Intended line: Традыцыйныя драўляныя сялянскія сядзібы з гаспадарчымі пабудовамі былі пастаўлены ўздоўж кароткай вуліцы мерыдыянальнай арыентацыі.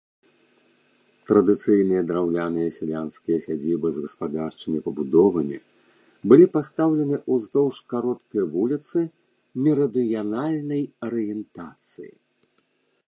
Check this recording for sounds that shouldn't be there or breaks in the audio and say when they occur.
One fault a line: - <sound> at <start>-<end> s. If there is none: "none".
none